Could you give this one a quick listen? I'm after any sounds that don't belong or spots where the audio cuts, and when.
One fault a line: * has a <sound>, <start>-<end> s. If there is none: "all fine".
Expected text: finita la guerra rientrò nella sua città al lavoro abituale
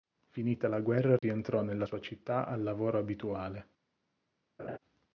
* has a dropout, 1.2-1.2 s
* has a laugh, 4.6-4.8 s